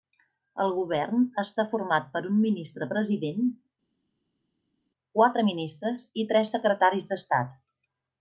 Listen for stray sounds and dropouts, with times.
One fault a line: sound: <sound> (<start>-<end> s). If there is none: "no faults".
no faults